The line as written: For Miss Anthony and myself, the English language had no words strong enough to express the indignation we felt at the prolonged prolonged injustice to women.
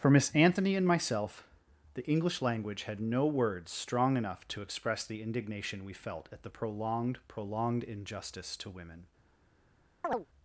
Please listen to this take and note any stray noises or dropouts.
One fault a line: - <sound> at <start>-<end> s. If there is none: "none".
- chirp at 10.0-10.3 s